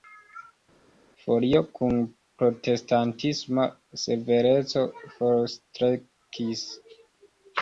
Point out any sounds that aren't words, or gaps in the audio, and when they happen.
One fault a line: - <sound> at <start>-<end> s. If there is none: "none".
none